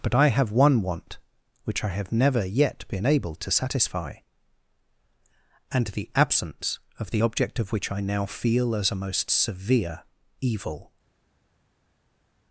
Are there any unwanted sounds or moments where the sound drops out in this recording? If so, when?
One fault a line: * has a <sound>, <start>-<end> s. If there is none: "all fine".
all fine